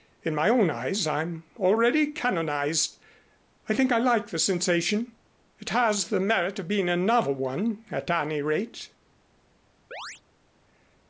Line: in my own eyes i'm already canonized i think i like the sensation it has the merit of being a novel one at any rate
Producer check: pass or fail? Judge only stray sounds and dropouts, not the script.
fail